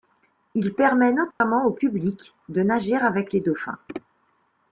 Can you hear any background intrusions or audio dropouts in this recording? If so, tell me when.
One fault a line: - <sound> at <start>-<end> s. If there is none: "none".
- dropout at 1.3-1.4 s